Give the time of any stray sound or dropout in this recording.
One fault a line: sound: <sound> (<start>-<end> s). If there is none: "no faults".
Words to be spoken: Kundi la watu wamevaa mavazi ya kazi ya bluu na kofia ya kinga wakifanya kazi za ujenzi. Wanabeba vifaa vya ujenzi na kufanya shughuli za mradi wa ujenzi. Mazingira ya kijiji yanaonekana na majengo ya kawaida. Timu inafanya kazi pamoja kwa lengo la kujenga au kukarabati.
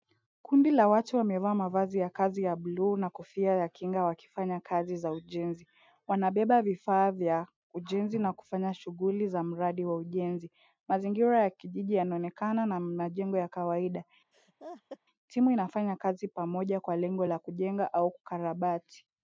sound: laugh (14.3-15.0 s)